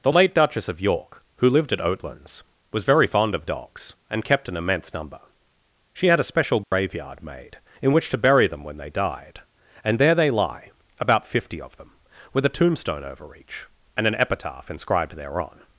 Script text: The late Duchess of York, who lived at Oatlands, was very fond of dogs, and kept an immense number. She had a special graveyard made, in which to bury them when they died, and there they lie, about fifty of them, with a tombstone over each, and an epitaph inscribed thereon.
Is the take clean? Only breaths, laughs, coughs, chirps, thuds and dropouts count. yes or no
no